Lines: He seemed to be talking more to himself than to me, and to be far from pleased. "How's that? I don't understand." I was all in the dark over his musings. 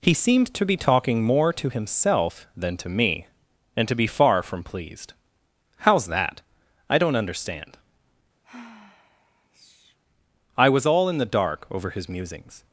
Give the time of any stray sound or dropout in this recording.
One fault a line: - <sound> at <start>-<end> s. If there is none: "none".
- sigh at 8.4-10.0 s